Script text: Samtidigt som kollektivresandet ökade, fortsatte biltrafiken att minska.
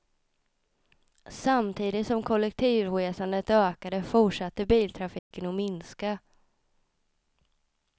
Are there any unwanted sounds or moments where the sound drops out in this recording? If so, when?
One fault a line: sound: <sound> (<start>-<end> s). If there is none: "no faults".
sound: dropout (5.2-5.3 s)